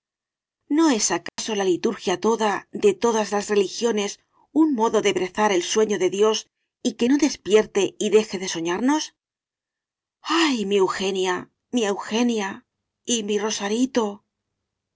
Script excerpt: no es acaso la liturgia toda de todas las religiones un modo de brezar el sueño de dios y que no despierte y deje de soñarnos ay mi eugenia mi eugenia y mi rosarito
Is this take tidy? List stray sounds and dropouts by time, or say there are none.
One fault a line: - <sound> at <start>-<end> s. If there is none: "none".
- dropout at 1.3-1.4 s